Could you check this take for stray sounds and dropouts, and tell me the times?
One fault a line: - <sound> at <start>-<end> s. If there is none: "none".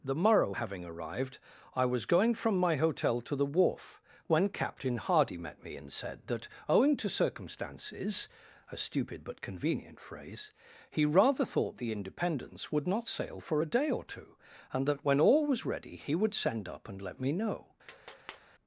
- tap at 17.9-18.4 s